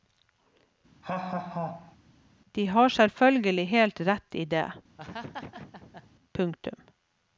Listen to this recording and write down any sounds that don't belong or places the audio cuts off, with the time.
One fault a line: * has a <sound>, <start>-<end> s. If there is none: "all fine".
* has a laugh, 1.0-2.0 s
* has a laugh, 5.0-6.1 s